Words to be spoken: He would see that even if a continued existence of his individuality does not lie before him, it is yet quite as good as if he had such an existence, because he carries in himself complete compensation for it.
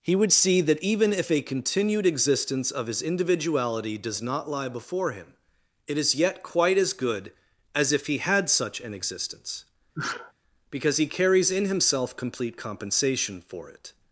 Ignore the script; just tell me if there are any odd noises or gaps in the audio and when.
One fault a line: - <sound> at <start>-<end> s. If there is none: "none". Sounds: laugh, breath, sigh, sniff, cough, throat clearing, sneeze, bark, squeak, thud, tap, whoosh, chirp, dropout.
- sneeze at 9.9-10.3 s